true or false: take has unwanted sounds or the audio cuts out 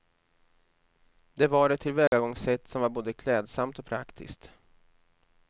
true